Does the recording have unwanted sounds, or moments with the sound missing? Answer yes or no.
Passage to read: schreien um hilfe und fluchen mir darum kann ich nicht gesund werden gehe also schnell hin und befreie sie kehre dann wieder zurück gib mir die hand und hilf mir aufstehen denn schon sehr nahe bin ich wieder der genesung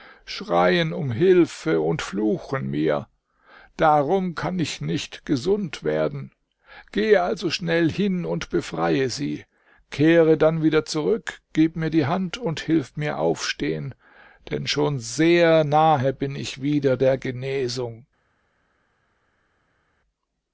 no